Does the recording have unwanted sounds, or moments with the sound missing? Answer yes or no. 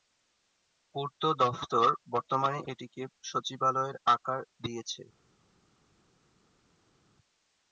no